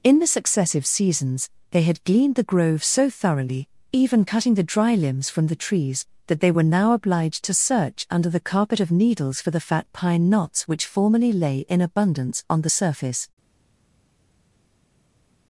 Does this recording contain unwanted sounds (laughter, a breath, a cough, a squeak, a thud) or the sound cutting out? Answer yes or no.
no